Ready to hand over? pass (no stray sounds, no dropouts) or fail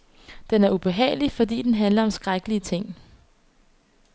pass